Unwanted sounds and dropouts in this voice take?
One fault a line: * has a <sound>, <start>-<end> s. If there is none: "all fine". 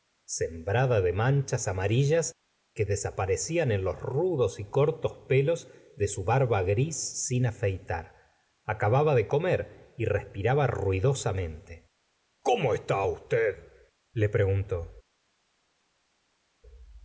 all fine